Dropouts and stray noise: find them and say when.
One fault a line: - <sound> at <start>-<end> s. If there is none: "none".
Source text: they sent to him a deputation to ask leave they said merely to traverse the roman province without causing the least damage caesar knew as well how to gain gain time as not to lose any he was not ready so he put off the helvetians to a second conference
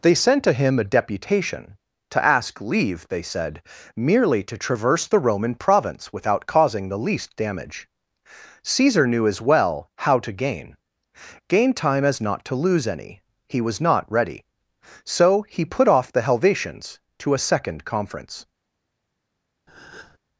- breath at 19.7-20.2 s